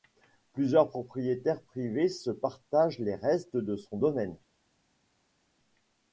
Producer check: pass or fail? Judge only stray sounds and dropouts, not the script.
pass